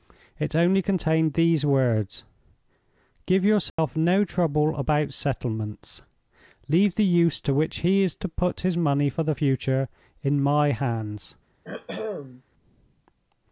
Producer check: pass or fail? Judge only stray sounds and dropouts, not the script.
fail